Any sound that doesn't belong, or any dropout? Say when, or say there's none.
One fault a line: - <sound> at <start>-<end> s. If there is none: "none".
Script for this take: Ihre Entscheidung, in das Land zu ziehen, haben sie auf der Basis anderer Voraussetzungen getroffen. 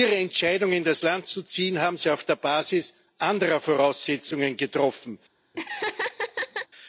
- laugh at 5.5-6.7 s